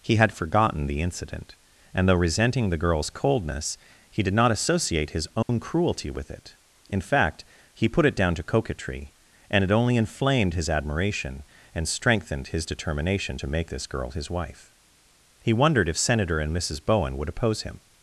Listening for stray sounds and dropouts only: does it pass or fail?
fail